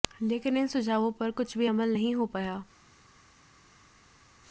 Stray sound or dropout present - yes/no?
no